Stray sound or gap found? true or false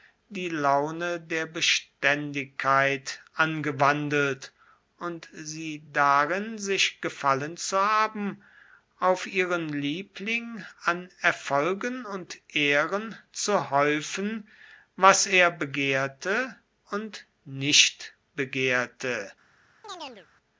true